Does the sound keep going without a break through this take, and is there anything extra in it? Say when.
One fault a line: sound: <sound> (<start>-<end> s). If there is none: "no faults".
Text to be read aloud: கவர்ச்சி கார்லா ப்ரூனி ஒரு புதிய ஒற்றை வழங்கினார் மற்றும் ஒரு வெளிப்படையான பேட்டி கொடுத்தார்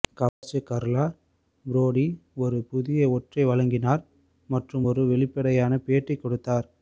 sound: dropout (0.3-0.4 s)